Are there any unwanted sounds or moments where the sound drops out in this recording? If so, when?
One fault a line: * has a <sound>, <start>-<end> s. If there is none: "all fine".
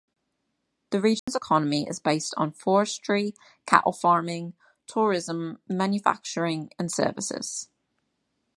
* has a dropout, 1.2-1.3 s